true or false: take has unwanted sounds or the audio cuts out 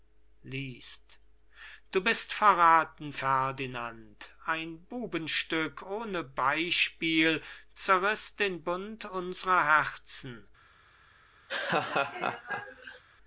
true